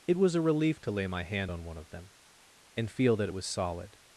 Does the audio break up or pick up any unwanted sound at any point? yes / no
no